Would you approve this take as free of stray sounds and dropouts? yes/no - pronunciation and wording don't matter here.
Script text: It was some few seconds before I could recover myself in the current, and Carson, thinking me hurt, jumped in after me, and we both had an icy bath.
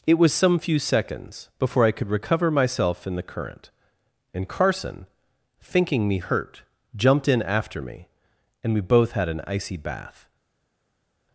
yes